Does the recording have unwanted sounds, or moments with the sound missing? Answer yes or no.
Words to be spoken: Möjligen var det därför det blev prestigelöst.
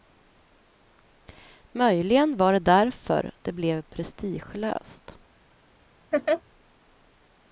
yes